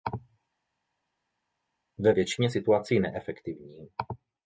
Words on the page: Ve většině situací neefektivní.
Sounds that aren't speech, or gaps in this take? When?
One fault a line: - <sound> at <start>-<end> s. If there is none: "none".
none